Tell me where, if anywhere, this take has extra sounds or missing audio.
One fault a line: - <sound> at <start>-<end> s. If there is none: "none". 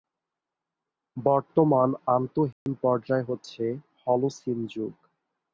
- dropout at 2.5-2.7 s